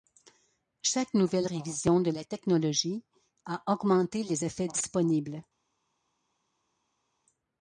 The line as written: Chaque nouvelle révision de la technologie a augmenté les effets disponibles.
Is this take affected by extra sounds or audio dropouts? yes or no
no